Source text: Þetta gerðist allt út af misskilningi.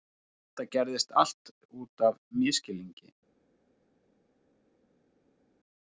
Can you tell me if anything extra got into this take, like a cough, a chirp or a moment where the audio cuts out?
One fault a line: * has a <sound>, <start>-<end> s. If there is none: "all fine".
all fine